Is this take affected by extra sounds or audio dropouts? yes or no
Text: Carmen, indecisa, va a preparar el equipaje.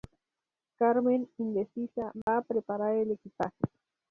yes